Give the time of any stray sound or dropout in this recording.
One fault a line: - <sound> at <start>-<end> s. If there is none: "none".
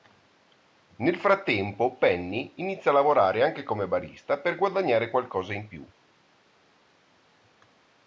none